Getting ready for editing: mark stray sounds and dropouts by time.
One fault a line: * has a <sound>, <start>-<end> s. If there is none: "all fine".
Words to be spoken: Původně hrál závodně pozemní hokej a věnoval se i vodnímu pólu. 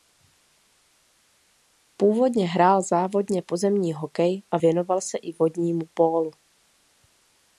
all fine